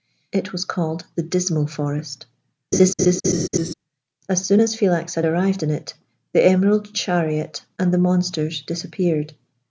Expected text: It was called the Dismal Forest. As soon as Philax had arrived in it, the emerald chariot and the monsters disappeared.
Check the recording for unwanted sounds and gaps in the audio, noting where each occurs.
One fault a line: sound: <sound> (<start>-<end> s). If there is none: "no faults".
sound: laugh (2.7-3.7 s)